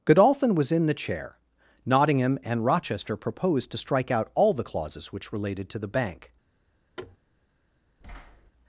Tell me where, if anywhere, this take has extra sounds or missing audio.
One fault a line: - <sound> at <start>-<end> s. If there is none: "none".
- thud at 7.0-7.2 s
- thud at 8.0-8.5 s